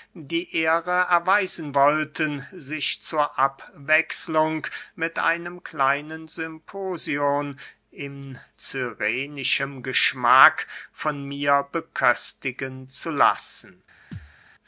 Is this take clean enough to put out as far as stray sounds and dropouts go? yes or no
no